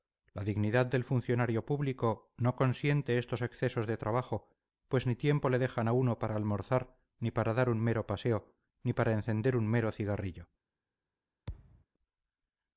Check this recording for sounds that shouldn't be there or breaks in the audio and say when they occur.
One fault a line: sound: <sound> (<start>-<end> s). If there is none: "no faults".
sound: thud (11.5-11.9 s)